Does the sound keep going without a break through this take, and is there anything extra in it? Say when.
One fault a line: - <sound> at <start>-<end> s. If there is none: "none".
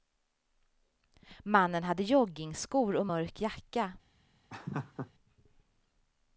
- laugh at 4.5-5.1 s